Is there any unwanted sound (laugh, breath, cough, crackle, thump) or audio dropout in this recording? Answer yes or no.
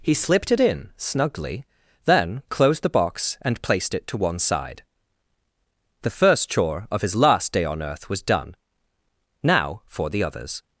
no